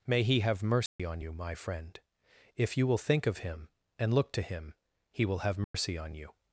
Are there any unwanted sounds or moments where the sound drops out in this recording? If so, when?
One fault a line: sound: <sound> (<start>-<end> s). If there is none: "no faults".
sound: dropout (0.9-1.0 s)
sound: dropout (5.6-5.7 s)